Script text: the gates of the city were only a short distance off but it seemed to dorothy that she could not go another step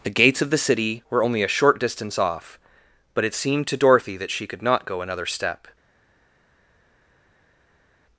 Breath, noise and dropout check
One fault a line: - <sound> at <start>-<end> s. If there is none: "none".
none